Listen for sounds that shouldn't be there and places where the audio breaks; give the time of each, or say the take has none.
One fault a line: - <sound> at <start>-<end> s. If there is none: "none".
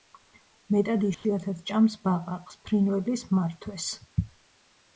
- dropout at 1.1-1.2 s